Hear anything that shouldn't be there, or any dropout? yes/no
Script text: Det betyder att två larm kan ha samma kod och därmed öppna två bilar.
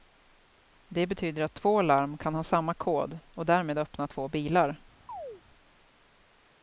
yes